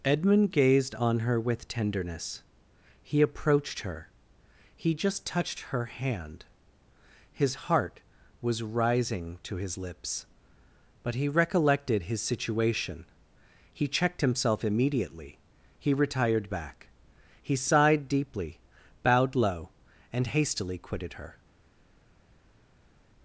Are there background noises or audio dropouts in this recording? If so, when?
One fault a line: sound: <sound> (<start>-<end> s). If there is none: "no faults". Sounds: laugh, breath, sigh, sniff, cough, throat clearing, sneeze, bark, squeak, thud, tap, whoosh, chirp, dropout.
no faults